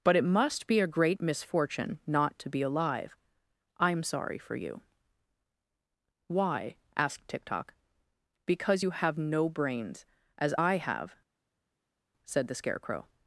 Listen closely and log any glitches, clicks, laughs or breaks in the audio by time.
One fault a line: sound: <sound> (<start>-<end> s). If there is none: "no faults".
no faults